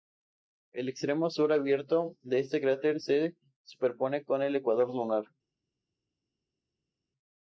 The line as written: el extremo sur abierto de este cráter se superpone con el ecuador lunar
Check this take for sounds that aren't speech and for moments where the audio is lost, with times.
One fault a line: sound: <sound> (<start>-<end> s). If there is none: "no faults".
no faults